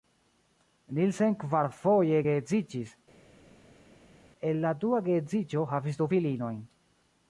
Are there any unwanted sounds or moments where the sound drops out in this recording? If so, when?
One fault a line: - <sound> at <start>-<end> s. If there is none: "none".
none